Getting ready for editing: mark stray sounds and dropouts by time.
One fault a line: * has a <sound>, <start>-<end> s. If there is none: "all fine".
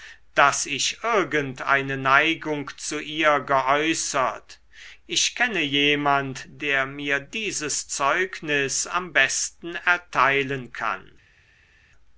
all fine